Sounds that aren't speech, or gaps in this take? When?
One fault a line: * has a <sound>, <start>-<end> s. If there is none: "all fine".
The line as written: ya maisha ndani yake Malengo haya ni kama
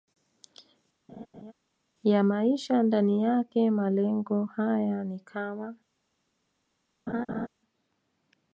* has a laugh, 1.1-1.5 s
* has a laugh, 7.1-7.5 s